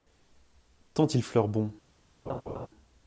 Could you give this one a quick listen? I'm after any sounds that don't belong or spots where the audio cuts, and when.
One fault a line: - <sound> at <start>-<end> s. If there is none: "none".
- laugh at 2.3-2.7 s